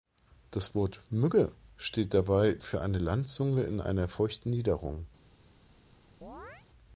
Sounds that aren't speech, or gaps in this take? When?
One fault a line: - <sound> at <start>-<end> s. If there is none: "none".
- chirp at 6.2-6.7 s